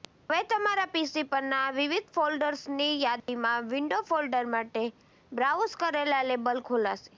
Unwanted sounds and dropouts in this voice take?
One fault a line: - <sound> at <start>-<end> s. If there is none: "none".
- dropout at 3.2-3.3 s